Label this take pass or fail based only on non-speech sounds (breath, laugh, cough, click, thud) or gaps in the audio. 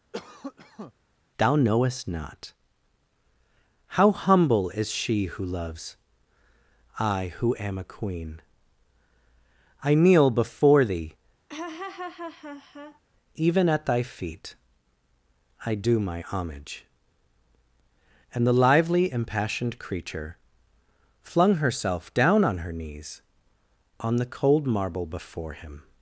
fail